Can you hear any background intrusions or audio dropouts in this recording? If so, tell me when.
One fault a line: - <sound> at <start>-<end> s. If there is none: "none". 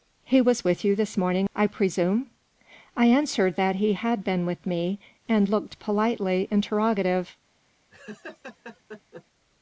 - laugh at 7.9-9.2 s